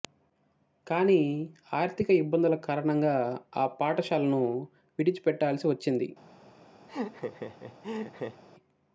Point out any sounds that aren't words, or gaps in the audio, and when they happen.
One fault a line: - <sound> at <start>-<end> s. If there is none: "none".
- laugh at 6.9-8.4 s